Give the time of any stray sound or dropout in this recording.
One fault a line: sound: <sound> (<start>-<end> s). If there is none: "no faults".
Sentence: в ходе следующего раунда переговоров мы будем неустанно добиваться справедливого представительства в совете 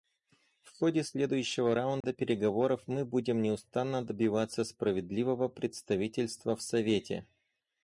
sound: dropout (2.0-2.0 s)